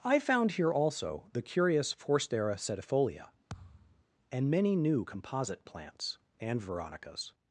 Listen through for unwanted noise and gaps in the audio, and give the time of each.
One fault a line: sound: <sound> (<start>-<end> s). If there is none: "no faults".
sound: thud (3.5-4.0 s)